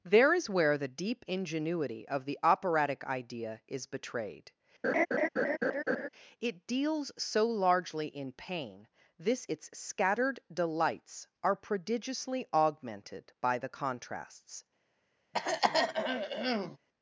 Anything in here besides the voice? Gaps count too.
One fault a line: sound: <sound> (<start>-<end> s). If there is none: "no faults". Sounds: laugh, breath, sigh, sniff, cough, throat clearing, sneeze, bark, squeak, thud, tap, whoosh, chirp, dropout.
sound: laugh (4.8-6.1 s)
sound: throat clearing (15.3-16.8 s)